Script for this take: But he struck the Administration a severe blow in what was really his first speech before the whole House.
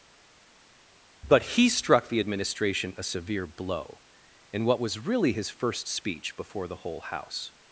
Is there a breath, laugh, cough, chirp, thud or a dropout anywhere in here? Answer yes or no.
no